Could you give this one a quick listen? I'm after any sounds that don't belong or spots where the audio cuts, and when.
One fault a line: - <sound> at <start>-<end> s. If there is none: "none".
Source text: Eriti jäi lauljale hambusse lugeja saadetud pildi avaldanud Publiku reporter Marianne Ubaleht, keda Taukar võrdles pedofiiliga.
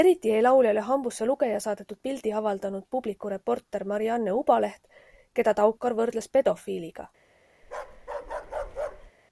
- bark at 7.6-9.1 s